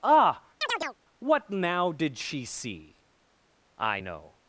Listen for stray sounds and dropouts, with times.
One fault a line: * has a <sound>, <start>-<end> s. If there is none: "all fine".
* has a chirp, 0.6-1.0 s